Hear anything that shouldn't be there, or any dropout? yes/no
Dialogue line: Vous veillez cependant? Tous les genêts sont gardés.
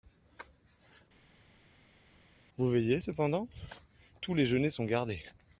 no